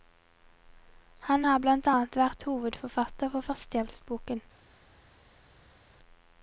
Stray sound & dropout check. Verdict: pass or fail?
pass